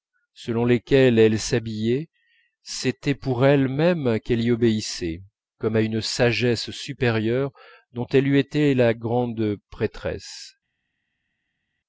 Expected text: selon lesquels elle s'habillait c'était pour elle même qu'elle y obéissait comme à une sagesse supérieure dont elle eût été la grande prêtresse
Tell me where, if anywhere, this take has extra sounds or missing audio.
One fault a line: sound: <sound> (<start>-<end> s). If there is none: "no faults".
no faults